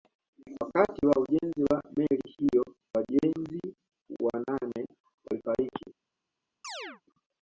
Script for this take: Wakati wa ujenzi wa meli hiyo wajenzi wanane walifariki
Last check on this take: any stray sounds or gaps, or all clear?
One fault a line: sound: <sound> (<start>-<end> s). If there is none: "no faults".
sound: chirp (6.6-7.0 s)